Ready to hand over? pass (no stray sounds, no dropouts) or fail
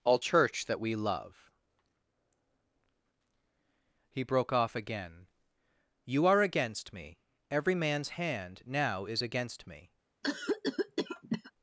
fail